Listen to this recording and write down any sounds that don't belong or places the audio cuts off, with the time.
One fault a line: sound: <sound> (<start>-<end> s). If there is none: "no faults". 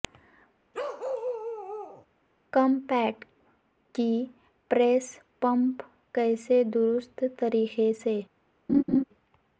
sound: bark (0.7-2.1 s)
sound: laugh (8.7-9.0 s)